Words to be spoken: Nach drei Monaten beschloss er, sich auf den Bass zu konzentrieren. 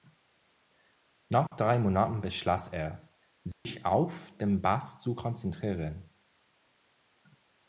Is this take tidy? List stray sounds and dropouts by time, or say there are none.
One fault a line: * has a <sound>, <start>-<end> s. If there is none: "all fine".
* has a dropout, 1.5-1.5 s
* has a dropout, 3.5-3.7 s